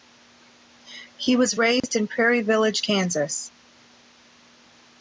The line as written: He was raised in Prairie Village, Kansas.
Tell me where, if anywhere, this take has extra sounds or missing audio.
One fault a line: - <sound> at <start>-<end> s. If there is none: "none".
- dropout at 1.8-1.8 s